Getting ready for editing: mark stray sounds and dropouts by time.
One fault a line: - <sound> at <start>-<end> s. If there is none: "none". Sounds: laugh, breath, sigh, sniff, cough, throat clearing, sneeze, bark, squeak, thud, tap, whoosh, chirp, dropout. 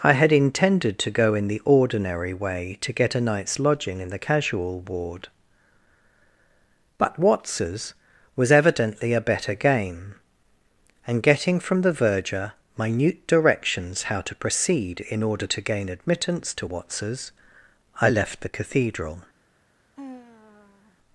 - sigh at 20.0-21.0 s